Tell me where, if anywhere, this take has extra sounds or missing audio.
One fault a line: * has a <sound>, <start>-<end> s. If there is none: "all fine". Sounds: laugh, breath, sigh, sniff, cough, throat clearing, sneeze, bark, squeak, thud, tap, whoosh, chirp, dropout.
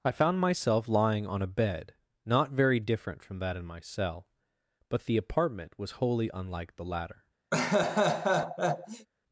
* has a laugh, 7.5-9.1 s